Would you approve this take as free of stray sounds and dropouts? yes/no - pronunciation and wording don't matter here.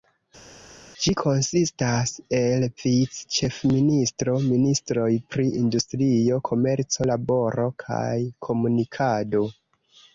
yes